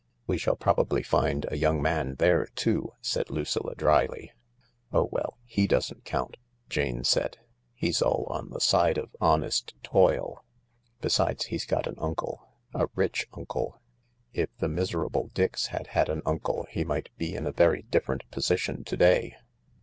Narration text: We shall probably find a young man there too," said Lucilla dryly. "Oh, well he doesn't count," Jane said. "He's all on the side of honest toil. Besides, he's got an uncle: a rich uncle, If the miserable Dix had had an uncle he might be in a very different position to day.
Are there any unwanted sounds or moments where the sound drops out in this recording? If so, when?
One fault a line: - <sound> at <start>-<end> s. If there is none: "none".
none